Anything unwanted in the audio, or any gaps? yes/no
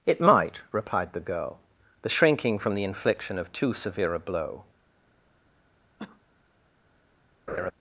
yes